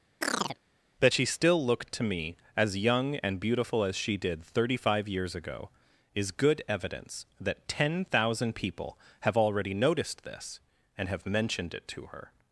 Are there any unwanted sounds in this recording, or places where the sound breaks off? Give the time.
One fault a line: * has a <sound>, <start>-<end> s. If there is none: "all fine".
* has a chirp, 0.2-0.6 s